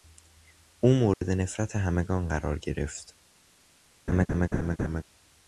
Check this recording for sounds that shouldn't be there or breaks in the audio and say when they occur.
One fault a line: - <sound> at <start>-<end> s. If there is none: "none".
- dropout at 1.1-1.2 s
- laugh at 4.1-5.0 s